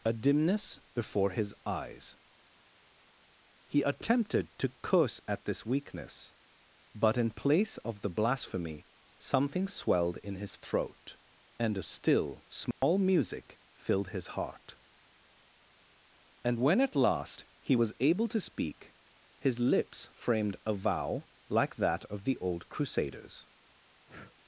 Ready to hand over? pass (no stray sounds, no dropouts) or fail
fail